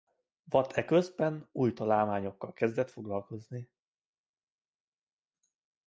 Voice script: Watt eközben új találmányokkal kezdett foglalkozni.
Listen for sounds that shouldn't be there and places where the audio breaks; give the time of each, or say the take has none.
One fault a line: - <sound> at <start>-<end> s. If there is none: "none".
none